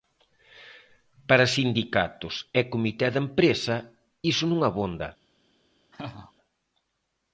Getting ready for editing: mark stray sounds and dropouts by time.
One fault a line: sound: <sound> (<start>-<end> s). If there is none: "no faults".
sound: laugh (5.9-6.3 s)